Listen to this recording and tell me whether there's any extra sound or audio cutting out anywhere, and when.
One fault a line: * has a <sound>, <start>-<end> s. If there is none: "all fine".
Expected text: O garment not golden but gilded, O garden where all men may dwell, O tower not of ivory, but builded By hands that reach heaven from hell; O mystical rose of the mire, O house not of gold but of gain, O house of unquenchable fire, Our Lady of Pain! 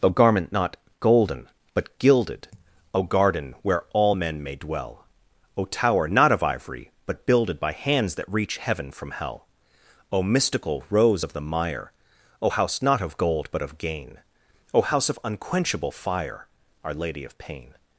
all fine